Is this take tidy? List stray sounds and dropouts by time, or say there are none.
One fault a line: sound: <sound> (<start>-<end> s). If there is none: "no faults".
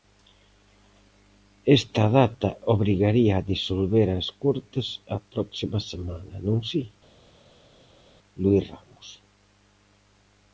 no faults